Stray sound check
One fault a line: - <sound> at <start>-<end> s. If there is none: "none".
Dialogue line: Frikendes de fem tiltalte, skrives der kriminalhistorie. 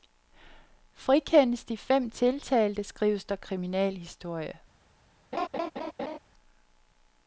- laugh at 5.3-6.2 s